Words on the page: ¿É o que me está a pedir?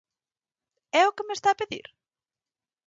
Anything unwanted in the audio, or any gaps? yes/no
no